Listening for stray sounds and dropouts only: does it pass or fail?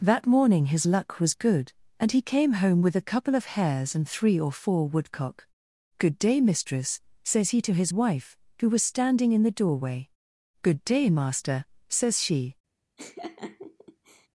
fail